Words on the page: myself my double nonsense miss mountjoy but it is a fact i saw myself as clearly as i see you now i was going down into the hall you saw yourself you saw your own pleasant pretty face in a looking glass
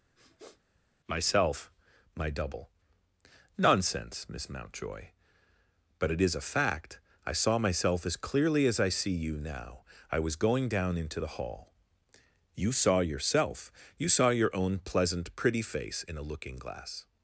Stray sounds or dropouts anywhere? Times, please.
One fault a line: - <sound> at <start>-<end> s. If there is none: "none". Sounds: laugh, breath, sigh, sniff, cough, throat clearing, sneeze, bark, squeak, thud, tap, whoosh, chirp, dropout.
- sniff at 0.1-0.6 s